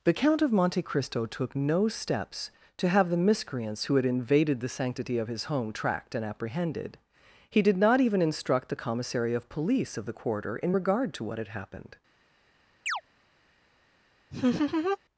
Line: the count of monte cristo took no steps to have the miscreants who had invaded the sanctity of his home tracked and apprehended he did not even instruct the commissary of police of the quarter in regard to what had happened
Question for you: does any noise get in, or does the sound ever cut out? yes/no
yes